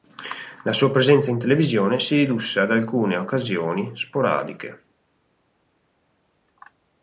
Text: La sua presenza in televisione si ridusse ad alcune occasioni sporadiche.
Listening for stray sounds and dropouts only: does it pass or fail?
pass